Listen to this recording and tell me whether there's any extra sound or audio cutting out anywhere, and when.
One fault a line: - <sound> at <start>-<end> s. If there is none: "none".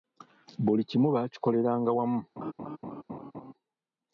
- laugh at 2.4-3.5 s